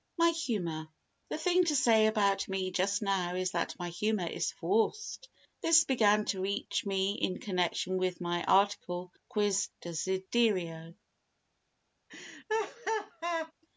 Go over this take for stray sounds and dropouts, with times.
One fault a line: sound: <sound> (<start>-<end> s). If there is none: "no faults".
sound: laugh (12.1-13.5 s)